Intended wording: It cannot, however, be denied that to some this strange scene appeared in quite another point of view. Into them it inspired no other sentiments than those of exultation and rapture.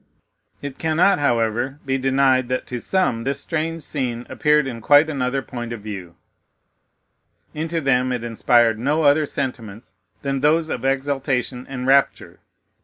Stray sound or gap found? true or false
false